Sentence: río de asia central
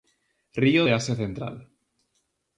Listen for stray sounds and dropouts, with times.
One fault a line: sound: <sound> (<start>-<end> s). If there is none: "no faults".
no faults